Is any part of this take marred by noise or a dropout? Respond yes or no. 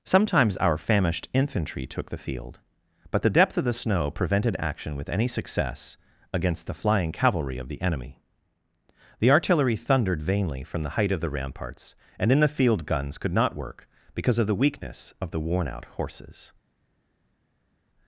no